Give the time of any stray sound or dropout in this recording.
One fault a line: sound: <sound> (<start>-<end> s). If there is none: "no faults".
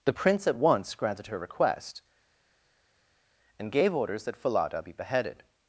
no faults